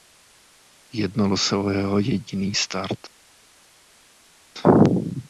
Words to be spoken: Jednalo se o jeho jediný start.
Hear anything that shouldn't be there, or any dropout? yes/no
no